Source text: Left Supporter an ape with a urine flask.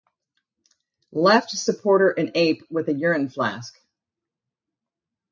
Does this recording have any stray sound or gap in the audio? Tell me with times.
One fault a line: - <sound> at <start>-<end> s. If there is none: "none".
none